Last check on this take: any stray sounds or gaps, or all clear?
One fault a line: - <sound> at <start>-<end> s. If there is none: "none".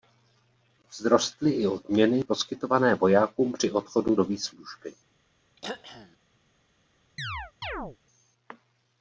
- throat clearing at 5.6-6.2 s
- chirp at 7.2-8.0 s